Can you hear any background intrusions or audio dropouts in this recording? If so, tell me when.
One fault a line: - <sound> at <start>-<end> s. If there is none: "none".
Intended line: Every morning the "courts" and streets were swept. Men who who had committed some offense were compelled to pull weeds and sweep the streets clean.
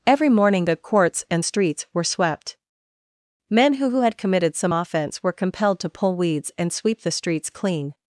none